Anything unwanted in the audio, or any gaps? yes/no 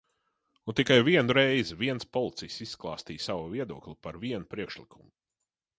no